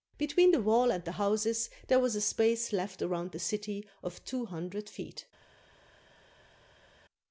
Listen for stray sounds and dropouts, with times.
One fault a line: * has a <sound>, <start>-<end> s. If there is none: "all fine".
all fine